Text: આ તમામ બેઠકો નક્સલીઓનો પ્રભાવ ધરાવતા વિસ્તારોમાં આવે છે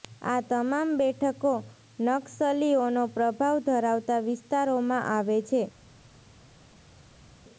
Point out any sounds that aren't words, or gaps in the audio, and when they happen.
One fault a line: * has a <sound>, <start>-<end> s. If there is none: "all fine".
all fine